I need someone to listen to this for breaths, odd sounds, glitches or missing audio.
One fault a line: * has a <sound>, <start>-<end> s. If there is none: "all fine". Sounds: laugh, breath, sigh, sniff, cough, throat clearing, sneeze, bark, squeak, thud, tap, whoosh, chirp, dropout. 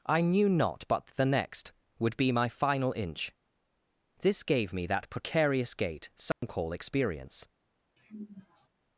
* has a dropout, 6.3-6.4 s
* has a sigh, 8.0-8.7 s